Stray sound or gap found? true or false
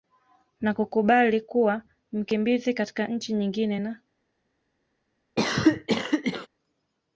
true